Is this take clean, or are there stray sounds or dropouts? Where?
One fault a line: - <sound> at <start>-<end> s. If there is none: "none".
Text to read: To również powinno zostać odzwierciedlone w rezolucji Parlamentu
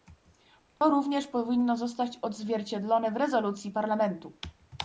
- dropout at 0.8-0.8 s